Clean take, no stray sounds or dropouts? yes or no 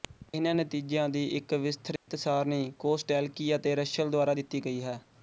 no